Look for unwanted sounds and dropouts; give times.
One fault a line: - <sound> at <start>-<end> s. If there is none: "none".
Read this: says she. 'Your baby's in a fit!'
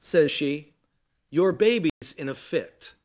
- dropout at 1.9-2.0 s